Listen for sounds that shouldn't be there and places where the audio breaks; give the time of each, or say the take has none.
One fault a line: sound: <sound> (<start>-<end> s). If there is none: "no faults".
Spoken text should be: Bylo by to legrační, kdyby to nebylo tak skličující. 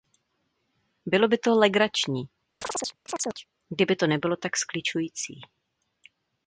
sound: chirp (2.6-3.5 s)